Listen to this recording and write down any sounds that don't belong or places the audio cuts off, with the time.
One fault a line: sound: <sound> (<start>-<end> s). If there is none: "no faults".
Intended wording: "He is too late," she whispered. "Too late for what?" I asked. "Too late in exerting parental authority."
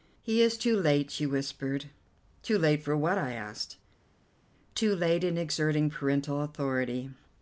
no faults